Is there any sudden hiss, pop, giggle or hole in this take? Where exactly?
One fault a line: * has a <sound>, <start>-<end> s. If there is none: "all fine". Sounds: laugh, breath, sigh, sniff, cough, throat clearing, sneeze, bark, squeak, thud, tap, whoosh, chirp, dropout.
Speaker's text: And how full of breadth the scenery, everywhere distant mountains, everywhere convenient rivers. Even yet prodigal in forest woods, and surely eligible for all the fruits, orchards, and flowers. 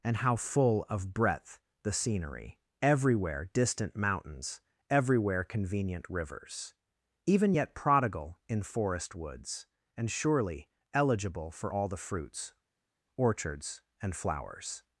all fine